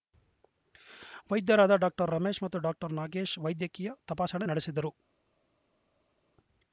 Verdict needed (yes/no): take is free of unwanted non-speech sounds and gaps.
yes